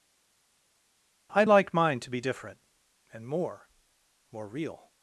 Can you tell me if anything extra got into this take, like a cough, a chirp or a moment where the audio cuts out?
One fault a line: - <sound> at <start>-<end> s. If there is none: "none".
none